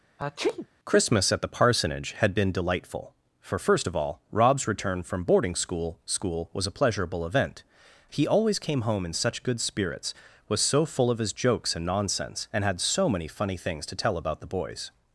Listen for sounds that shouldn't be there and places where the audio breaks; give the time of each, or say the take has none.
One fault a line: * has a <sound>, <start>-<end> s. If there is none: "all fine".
* has a sneeze, 0.2-0.7 s